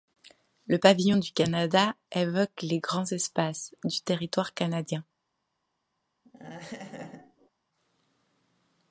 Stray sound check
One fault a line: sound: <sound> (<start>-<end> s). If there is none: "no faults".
sound: laugh (6.2-7.5 s)